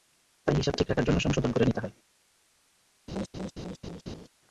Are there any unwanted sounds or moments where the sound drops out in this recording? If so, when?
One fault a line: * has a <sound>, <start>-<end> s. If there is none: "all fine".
* has a laugh, 3.1-4.3 s